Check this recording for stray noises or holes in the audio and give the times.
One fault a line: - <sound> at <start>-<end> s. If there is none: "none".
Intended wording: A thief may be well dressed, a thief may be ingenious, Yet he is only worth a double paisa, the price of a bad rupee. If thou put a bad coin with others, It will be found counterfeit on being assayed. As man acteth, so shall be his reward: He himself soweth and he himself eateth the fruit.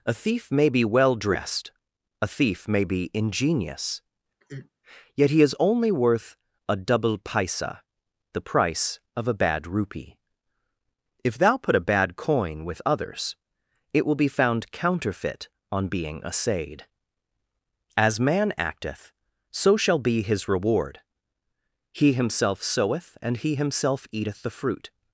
- sigh at 4.4-4.7 s